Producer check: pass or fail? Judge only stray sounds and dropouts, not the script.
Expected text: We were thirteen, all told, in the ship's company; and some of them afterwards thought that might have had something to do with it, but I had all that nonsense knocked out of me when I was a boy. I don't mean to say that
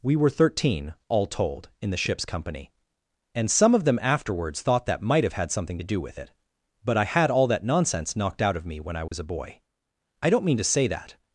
fail